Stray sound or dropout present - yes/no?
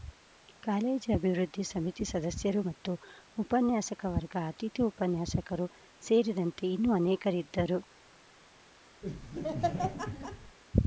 yes